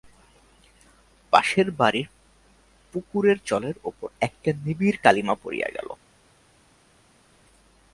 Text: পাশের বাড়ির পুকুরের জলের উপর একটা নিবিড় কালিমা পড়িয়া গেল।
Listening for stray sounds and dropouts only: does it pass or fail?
pass